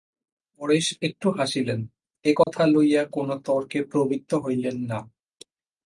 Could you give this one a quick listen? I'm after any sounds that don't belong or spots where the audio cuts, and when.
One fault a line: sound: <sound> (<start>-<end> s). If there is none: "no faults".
sound: dropout (2.4-2.5 s)